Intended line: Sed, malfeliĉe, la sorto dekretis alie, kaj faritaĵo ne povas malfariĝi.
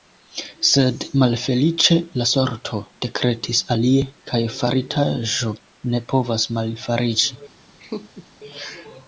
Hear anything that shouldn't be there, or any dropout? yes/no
yes